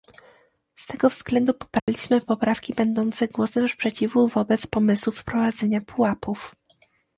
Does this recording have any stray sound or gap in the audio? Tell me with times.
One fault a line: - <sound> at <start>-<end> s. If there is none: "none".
- dropout at 1.8-1.9 s